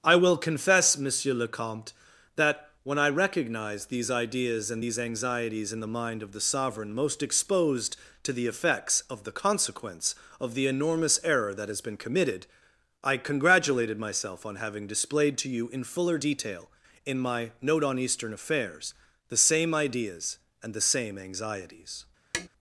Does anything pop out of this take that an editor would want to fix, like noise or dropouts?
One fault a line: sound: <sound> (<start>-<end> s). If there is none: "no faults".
sound: tap (22.3-22.5 s)